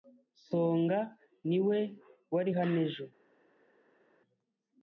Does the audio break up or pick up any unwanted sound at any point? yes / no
no